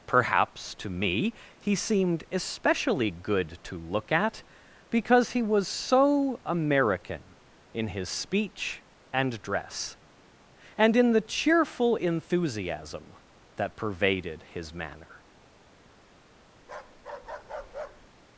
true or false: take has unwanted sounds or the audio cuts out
true